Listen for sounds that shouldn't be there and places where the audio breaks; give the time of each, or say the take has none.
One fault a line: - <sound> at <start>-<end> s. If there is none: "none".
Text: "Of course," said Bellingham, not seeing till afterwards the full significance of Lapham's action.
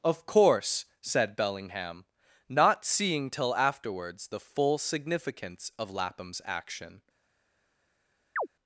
- chirp at 8.4-8.5 s